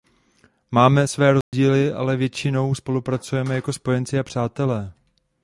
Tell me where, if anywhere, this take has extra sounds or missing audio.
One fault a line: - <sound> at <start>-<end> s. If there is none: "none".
- dropout at 1.4-1.5 s